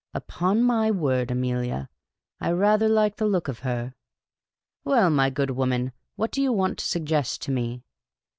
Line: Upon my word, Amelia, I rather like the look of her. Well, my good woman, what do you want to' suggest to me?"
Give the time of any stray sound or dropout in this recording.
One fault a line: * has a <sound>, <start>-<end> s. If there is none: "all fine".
all fine